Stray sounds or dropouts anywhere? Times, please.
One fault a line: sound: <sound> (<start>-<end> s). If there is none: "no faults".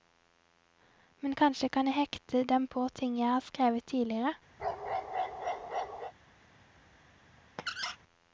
sound: bark (4.6-6.1 s)
sound: squeak (7.6-8.0 s)